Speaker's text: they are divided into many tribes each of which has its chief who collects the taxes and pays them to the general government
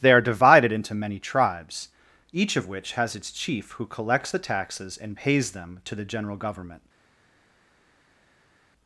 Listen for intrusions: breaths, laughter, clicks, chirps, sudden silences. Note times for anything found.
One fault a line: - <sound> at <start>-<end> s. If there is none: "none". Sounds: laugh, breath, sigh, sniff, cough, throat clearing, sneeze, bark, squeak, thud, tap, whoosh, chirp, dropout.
none